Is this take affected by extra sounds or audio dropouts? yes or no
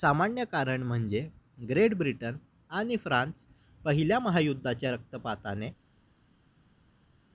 no